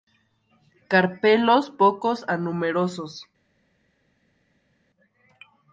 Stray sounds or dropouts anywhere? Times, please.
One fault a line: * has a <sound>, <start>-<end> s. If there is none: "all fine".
all fine